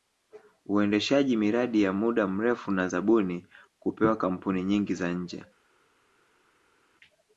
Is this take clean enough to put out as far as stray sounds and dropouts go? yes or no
yes